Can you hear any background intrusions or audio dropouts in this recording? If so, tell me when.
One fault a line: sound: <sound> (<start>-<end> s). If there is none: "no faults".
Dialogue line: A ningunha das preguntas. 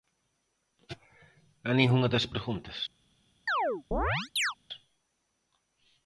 sound: chirp (3.5-4.5 s)